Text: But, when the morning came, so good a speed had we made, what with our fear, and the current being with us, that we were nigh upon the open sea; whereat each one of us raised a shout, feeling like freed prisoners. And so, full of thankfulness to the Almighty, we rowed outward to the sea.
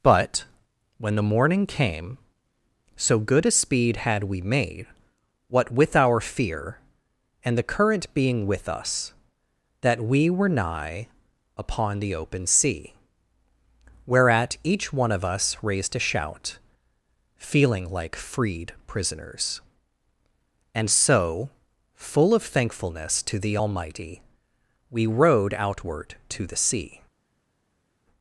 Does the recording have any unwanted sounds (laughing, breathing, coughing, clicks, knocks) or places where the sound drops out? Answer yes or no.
no